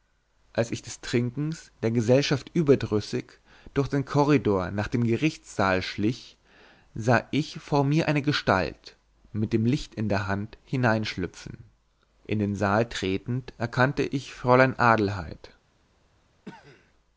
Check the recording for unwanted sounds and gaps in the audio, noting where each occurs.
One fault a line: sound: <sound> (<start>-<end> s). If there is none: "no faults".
sound: cough (16.4-16.9 s)